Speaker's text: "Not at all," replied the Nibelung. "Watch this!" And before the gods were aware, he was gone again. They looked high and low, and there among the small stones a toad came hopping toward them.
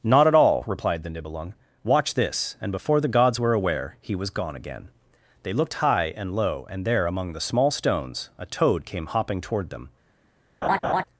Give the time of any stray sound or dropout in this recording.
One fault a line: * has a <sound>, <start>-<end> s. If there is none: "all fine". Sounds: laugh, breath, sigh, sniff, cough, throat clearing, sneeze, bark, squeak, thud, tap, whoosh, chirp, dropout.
* has a laugh, 10.6-11.0 s